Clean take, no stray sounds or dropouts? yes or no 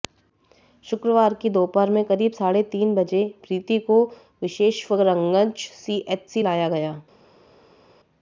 yes